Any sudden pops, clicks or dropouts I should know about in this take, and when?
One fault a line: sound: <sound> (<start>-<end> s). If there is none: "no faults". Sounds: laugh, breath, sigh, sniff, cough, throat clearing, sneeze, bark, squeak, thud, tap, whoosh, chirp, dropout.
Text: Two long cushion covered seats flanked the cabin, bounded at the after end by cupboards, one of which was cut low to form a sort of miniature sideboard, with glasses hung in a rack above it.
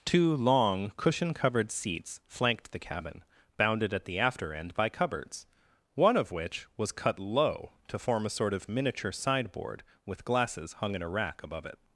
no faults